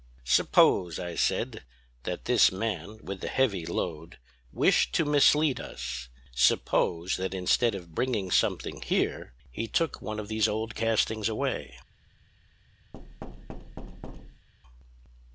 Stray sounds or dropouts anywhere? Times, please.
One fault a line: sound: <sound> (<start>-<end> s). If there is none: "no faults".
sound: thud (12.9-14.5 s)